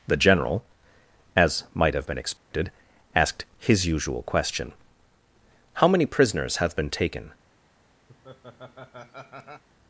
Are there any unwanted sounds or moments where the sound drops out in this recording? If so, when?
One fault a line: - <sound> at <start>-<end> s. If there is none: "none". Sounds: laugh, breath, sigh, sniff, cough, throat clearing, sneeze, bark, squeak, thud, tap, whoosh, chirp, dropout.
- dropout at 2.4-2.5 s
- laugh at 8.1-9.6 s